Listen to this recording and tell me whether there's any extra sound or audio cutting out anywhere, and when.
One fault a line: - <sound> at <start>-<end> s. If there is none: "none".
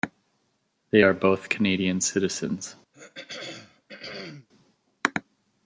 - throat clearing at 2.9-4.5 s